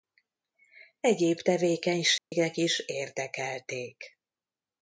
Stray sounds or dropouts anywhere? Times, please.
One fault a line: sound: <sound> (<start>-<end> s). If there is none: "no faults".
sound: dropout (2.2-2.3 s)